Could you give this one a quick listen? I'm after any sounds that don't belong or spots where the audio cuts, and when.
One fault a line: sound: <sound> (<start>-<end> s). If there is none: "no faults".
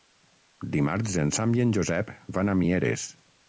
no faults